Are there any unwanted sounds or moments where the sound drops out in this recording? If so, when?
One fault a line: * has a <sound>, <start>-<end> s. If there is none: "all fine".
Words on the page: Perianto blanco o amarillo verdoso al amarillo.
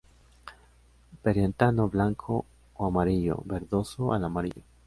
all fine